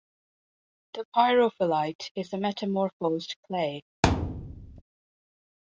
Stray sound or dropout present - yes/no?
yes